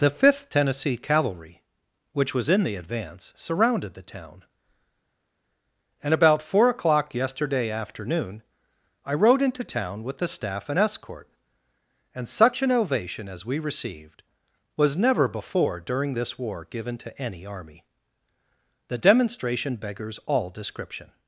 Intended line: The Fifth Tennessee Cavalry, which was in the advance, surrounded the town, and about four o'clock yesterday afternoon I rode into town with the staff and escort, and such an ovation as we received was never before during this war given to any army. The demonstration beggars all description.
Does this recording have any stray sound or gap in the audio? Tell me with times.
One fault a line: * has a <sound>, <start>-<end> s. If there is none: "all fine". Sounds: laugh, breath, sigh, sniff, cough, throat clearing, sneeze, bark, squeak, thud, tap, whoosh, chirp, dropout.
all fine